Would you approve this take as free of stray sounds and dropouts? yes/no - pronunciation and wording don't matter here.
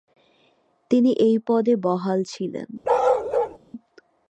no